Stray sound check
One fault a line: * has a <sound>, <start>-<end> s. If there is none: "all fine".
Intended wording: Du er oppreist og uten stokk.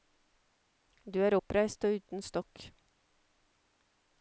all fine